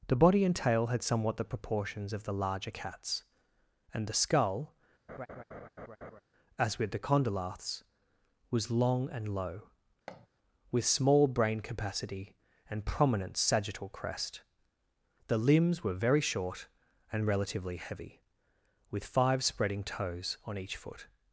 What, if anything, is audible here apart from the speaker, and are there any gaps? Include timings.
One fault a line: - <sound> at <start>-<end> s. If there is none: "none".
- laugh at 5.1-6.2 s
- thud at 10.1-10.3 s